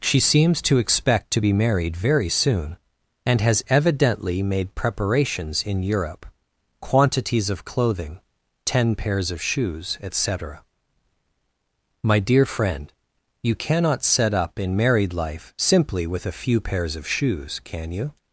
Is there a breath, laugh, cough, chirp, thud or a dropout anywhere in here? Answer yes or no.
no